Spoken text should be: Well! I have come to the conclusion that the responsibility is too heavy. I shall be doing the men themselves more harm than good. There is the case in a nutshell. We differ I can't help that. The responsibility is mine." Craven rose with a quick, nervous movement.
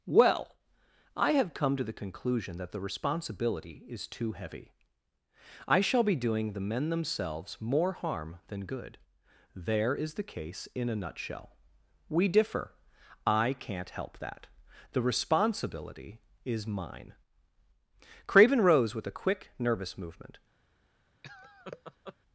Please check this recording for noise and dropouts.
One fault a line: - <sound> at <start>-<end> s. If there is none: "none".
- laugh at 21.2-22.2 s